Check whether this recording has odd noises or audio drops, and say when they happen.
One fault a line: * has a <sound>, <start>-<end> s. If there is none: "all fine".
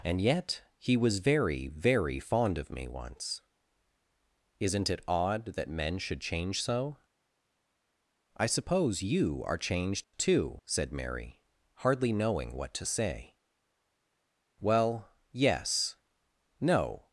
* has a dropout, 10.0-10.1 s